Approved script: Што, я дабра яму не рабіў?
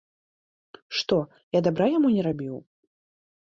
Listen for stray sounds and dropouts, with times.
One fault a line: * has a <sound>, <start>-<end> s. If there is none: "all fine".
all fine